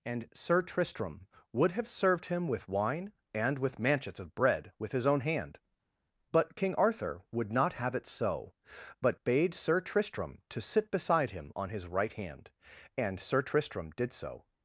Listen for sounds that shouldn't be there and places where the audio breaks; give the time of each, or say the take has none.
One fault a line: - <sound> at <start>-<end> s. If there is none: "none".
none